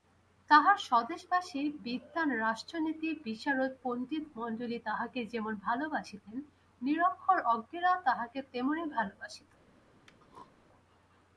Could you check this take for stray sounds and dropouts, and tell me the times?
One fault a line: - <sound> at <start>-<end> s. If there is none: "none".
- throat clearing at 10.1-10.5 s